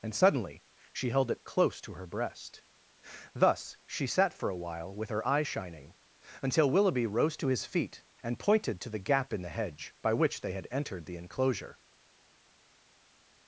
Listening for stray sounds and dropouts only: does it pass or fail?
pass